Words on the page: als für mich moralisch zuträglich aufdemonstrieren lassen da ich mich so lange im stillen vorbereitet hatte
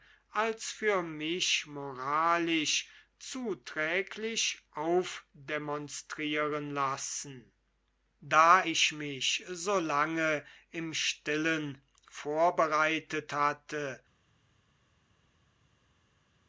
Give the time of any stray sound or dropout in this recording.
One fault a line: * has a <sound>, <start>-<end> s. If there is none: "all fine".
all fine